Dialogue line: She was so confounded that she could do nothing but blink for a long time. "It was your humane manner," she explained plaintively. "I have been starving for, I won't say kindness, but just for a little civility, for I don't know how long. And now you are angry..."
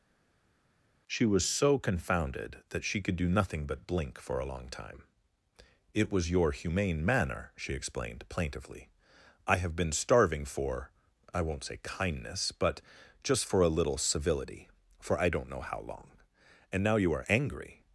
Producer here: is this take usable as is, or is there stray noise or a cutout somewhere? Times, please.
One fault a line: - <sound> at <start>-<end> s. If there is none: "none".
none